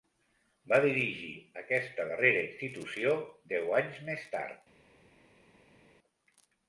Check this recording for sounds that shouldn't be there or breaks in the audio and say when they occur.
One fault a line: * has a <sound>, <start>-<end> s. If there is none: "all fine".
all fine